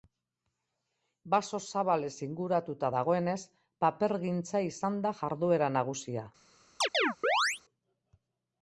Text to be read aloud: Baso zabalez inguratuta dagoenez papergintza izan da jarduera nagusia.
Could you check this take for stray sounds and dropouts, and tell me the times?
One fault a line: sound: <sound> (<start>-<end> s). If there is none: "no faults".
sound: chirp (6.8-7.6 s)